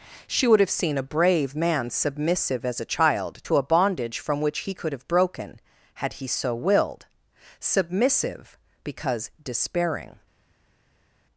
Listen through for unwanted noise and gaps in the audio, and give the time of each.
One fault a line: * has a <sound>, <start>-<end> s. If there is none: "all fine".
all fine